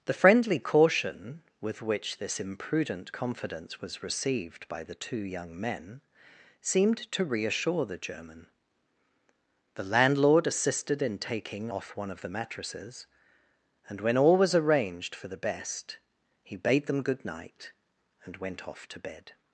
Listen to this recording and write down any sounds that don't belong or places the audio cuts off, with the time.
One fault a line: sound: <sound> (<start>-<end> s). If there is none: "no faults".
no faults